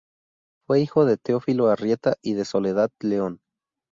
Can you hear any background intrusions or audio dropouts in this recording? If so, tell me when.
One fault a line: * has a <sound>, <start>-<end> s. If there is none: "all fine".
all fine